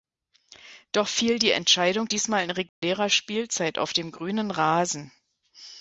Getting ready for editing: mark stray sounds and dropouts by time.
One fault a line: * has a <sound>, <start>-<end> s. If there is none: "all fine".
* has a dropout, 2.7-2.8 s